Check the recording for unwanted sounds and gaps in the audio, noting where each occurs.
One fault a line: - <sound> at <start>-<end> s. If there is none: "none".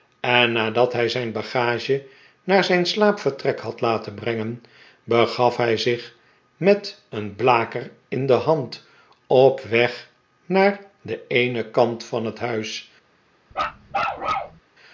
- bark at 13.5-14.6 s